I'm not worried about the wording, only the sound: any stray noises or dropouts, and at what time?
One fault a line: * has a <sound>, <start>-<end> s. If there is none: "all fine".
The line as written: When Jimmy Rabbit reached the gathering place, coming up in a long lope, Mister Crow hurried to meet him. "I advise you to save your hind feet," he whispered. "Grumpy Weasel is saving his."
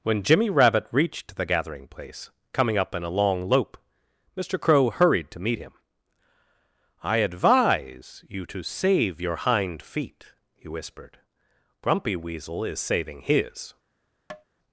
* has a tap, 14.3-14.4 s